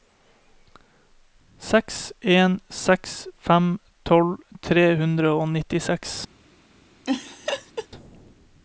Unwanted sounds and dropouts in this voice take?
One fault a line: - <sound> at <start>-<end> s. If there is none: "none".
- laugh at 7.0-7.9 s